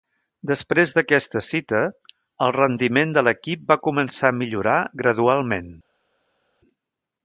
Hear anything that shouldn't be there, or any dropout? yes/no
no